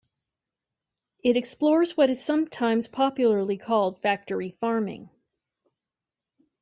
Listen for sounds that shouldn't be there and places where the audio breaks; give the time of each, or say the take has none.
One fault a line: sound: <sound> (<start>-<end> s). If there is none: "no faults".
no faults